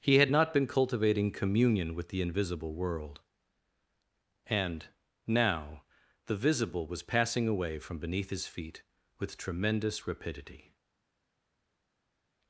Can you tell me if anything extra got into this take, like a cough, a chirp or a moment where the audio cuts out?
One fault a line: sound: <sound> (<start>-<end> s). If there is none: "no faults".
no faults